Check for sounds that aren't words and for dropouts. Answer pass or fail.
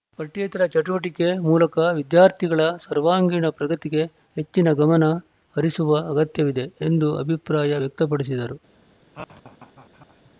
fail